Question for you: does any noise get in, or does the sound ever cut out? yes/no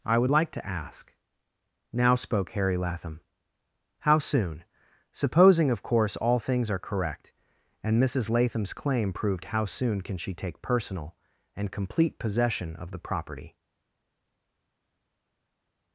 no